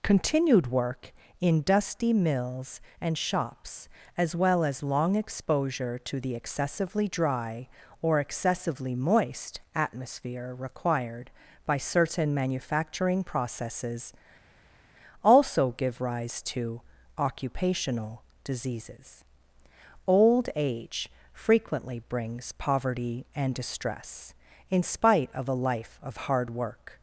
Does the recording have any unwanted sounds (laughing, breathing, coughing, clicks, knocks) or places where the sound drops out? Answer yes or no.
no